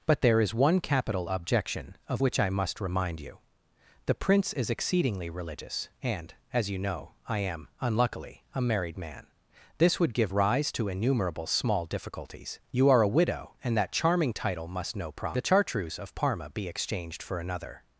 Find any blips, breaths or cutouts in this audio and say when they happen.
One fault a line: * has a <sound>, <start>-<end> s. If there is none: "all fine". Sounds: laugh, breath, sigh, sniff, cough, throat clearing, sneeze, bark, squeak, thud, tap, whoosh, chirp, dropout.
all fine